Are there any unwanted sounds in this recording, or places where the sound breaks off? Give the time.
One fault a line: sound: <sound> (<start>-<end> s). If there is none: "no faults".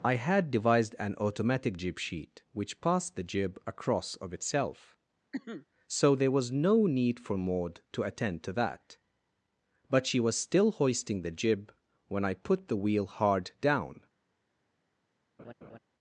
sound: cough (5.3-5.7 s)
sound: laugh (15.4-15.8 s)